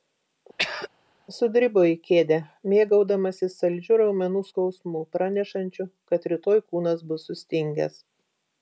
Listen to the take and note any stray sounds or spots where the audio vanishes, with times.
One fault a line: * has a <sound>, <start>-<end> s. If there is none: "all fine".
* has a throat clearing, 0.6-0.9 s